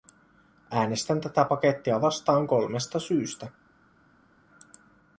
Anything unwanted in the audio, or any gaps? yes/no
no